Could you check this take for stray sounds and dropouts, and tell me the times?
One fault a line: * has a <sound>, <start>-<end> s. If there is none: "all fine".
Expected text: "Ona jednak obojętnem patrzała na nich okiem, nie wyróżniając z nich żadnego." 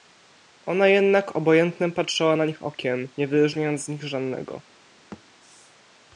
* has a thud, 5.1-5.2 s